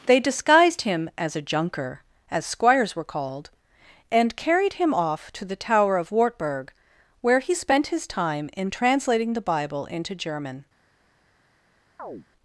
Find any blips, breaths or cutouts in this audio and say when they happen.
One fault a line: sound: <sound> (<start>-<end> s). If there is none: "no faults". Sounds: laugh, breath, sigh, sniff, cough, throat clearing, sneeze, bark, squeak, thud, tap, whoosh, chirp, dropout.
sound: chirp (12.0-12.3 s)